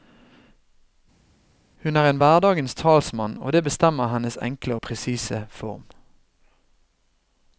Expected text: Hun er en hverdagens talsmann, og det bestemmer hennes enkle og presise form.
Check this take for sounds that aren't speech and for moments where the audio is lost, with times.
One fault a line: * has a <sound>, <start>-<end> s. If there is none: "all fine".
all fine